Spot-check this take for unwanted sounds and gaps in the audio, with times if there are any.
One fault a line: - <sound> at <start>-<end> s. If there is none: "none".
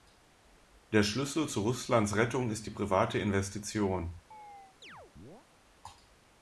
- chirp at 4.3-5.5 s